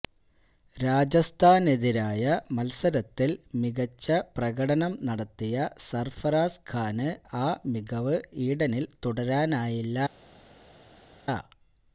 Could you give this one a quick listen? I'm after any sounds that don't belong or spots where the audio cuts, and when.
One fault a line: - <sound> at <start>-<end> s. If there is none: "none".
none